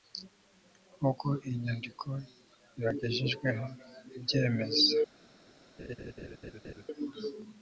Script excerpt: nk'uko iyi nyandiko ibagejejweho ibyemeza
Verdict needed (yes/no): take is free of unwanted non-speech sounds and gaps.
no